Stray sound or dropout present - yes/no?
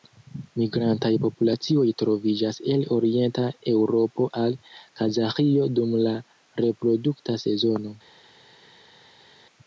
no